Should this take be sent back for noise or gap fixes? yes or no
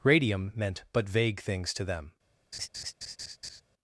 yes